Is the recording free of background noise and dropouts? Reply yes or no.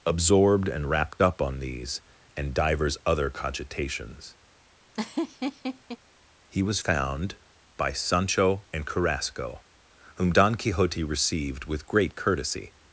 no